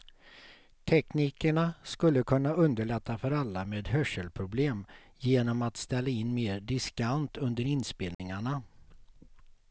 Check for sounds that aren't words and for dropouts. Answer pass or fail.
fail